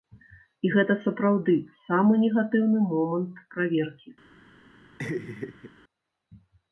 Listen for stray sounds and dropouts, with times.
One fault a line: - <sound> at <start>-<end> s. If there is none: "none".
- laugh at 5.0-5.7 s